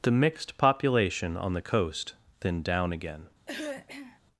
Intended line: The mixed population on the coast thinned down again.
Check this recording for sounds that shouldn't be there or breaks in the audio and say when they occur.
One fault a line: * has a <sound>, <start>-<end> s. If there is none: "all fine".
* has a throat clearing, 3.5-4.2 s